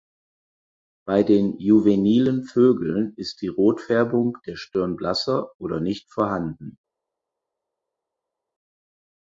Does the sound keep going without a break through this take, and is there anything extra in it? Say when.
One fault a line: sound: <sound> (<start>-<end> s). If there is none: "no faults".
no faults